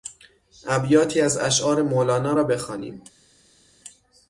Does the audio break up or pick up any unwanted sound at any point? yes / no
no